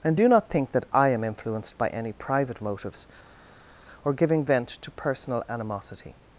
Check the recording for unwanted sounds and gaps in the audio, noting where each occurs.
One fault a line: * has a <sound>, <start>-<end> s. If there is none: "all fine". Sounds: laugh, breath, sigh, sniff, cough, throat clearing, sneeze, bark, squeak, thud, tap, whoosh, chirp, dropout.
all fine